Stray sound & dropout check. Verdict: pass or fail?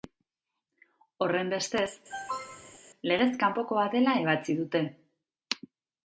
fail